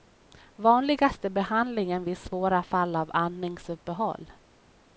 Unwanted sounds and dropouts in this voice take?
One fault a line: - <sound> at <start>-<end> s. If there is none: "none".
none